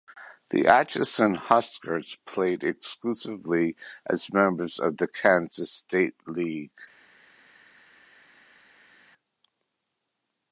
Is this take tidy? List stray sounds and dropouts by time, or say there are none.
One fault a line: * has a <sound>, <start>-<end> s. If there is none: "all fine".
all fine